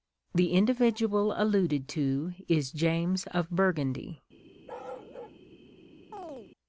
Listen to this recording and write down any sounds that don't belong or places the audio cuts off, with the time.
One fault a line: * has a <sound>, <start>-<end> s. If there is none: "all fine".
* has a bark, 4.7-5.4 s
* has a chirp, 6.1-6.5 s